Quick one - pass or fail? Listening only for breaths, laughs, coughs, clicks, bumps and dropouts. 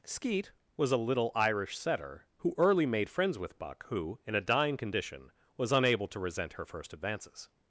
pass